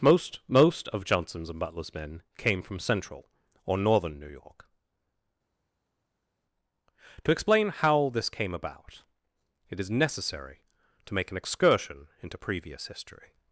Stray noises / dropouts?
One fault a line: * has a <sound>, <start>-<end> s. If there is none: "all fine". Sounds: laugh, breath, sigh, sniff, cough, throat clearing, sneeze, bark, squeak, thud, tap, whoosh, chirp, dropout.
all fine